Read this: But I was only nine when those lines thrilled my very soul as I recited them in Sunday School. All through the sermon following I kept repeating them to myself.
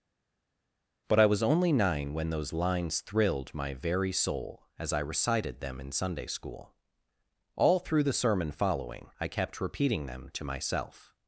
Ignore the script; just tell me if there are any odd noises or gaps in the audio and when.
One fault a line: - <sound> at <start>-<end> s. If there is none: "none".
none